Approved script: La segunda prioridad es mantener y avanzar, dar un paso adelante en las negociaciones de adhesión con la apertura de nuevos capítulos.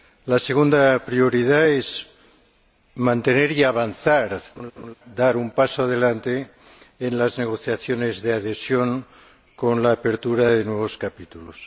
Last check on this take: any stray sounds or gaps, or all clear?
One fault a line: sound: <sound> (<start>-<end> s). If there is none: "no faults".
sound: laugh (4.6-4.9 s)